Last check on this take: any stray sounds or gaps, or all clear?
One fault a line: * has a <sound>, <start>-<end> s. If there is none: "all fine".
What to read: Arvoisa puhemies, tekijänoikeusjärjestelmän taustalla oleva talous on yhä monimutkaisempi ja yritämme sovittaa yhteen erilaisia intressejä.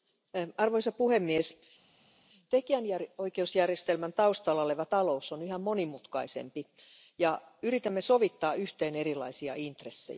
all fine